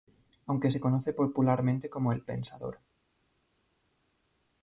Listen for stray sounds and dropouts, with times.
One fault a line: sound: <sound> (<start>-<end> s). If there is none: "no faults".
no faults